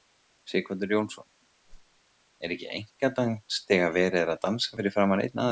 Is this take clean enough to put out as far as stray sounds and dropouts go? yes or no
no